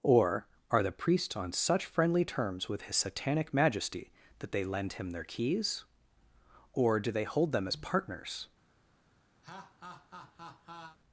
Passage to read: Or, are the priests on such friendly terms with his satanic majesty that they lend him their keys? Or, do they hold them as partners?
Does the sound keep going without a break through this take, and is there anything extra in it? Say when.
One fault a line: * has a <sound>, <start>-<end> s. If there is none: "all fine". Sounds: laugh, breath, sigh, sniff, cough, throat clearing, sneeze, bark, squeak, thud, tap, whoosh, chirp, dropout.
* has a laugh, 9.4-11.0 s